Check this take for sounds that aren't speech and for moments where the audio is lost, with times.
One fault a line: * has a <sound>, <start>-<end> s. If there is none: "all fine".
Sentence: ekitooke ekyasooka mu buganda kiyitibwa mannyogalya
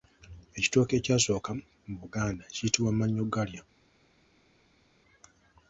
all fine